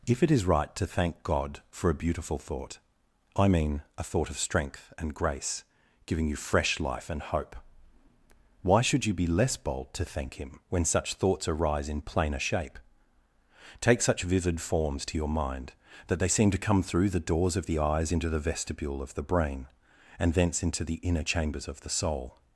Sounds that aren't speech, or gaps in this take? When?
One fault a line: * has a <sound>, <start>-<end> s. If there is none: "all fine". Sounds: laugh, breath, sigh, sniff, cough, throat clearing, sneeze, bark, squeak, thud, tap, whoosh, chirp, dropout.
all fine